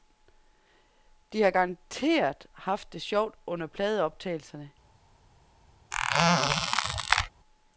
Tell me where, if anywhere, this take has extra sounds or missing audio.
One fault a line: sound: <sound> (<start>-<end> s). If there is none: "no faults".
sound: squeak (5.9-7.3 s)